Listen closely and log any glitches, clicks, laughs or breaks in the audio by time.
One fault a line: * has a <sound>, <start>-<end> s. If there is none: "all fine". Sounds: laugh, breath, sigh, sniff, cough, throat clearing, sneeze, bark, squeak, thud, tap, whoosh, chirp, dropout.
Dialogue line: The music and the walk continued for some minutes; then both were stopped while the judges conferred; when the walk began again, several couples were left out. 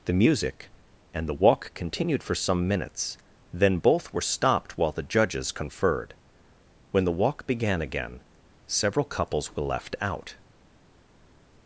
all fine